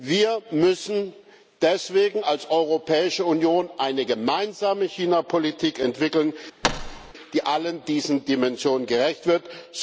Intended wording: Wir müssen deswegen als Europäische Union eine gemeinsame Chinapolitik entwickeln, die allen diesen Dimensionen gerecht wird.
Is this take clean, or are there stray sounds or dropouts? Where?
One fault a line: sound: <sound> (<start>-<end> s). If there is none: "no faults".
sound: thud (6.6-7.1 s)